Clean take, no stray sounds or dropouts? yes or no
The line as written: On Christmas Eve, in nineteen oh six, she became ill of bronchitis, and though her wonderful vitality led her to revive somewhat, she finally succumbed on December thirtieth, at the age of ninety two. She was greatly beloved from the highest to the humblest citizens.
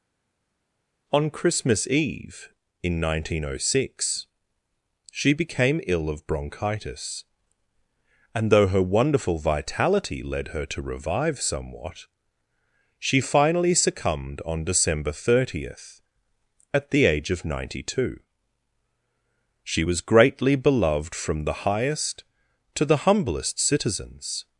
yes